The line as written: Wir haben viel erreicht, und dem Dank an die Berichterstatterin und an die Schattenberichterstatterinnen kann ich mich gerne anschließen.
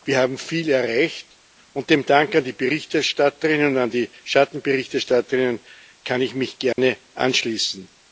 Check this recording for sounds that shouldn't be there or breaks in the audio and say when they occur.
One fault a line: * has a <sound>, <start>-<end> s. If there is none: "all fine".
* has a dropout, 6.7-6.8 s